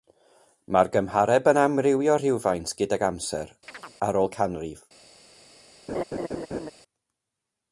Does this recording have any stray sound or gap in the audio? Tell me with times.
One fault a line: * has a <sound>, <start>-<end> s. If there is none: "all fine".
* has a chirp, 3.7-4.0 s
* has a laugh, 5.9-6.7 s